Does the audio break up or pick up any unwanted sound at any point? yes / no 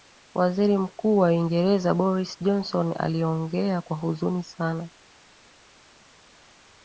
no